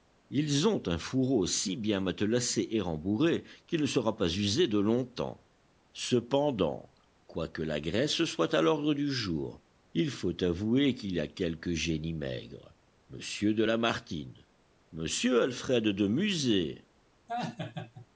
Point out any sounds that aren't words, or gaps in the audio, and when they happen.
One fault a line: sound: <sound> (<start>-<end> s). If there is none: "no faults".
sound: laugh (17.3-18.1 s)